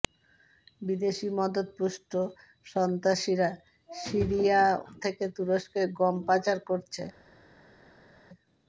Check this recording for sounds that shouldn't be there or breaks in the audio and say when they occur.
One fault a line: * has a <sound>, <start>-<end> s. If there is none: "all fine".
all fine